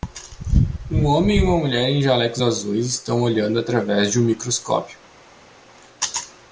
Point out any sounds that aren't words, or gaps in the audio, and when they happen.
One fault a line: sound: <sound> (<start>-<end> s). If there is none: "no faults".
no faults